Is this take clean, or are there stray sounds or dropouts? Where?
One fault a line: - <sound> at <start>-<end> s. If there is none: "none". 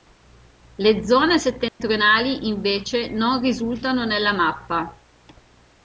- dropout at 1.7-1.8 s